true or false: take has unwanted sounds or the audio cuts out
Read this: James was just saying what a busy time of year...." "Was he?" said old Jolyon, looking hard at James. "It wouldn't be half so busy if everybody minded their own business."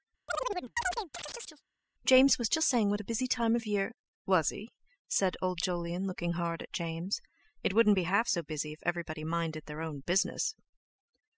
true